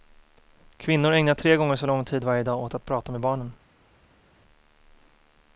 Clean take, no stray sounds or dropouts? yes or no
yes